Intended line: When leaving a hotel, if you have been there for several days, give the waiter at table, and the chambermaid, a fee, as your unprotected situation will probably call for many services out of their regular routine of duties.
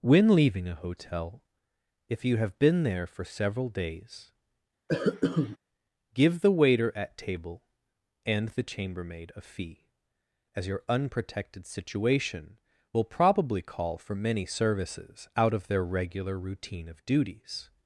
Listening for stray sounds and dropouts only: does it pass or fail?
fail